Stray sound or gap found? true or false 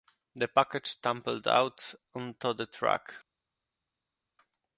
false